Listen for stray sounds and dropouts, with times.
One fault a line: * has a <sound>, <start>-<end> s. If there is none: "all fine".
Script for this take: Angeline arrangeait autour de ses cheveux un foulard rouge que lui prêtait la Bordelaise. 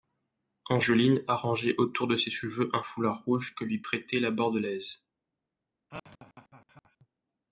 * has a laugh, 5.9-7.1 s